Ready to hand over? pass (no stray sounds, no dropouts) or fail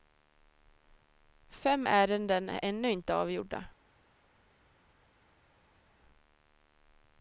pass